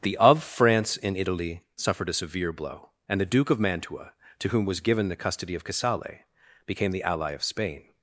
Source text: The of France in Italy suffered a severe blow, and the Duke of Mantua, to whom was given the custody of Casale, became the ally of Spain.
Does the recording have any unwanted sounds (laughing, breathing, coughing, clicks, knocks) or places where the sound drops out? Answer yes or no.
no